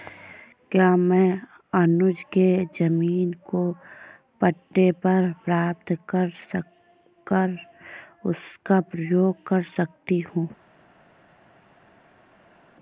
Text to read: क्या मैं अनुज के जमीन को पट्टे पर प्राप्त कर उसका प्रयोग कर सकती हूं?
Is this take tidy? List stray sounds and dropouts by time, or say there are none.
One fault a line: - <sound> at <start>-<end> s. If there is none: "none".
none